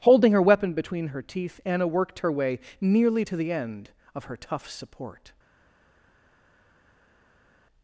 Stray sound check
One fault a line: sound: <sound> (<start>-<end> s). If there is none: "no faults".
no faults